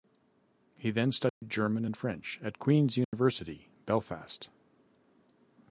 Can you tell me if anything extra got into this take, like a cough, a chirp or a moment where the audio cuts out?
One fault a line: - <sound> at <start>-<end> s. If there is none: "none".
- dropout at 1.3-1.4 s
- dropout at 3.0-3.1 s